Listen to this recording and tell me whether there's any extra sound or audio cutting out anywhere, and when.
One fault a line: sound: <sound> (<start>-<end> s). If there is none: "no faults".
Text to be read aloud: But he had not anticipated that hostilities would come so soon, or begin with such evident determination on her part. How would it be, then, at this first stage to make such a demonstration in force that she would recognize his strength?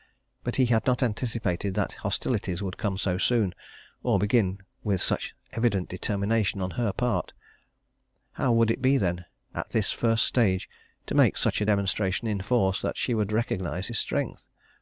no faults